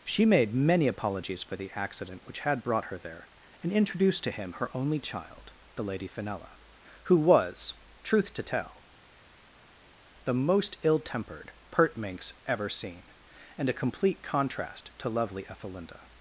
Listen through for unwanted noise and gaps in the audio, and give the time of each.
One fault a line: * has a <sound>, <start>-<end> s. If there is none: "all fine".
all fine